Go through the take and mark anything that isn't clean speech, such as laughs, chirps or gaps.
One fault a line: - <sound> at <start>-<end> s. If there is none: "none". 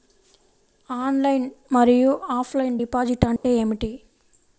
- dropout at 3.4-3.4 s